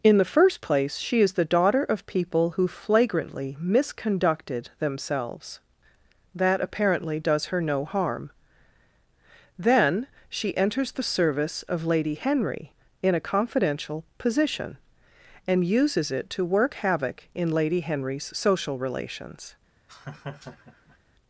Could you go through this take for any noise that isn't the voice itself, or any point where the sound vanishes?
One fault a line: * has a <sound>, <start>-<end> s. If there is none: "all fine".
* has a laugh, 19.9-21.0 s